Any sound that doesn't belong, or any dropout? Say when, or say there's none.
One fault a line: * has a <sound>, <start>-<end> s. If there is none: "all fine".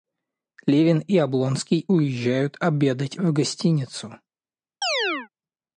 * has a chirp, 4.8-5.3 s